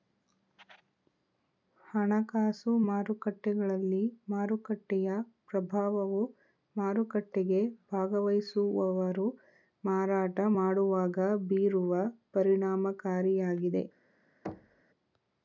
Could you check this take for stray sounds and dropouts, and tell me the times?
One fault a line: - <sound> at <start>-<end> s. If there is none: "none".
- thud at 14.4-14.8 s